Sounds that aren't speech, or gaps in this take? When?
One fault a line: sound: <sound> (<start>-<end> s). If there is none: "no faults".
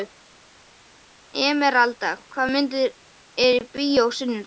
no faults